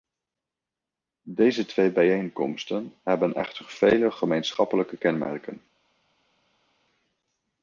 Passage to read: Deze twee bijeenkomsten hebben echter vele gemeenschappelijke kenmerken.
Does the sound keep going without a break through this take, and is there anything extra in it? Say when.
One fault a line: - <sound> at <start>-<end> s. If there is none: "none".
none